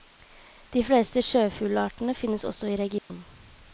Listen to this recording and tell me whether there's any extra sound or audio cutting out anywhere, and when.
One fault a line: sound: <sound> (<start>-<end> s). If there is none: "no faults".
sound: dropout (3.0-3.1 s)